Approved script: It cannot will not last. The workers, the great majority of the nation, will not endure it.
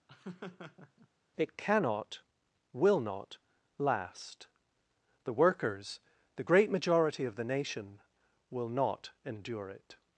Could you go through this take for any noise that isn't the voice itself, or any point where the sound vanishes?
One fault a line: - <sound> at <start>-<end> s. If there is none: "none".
- laugh at 0.1-1.1 s